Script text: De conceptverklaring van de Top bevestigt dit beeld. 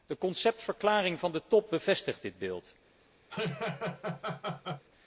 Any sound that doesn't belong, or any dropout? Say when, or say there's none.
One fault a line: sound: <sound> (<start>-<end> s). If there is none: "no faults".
sound: laugh (3.3-4.8 s)